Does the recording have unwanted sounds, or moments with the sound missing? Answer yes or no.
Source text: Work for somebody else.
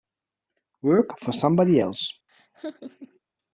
yes